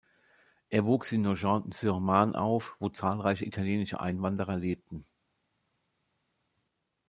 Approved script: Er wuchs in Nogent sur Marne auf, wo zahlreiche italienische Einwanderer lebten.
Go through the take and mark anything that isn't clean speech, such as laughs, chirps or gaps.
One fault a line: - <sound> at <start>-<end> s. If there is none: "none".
none